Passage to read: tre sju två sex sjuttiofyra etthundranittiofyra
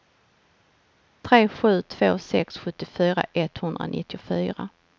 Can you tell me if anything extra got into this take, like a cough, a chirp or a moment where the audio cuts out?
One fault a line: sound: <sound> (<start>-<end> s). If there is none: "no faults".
no faults